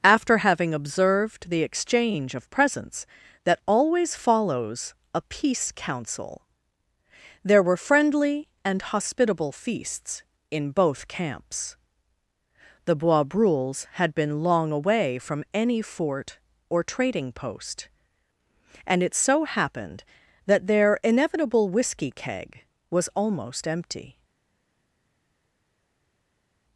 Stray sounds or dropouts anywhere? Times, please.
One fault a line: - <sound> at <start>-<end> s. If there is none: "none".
none